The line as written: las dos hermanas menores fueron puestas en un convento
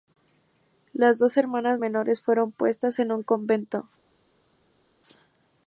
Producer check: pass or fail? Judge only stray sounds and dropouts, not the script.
pass